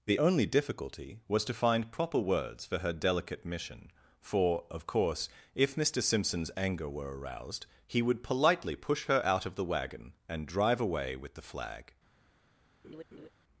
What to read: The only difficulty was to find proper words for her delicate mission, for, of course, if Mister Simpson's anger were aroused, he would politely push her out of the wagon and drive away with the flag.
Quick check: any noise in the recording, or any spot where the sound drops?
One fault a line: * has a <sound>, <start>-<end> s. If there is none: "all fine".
* has a laugh, 12.8-13.3 s